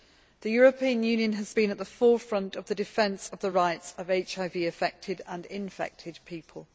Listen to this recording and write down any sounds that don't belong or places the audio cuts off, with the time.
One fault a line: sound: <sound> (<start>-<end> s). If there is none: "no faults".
no faults